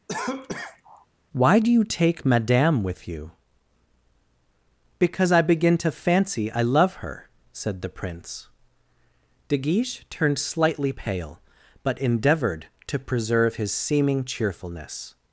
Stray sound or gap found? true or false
true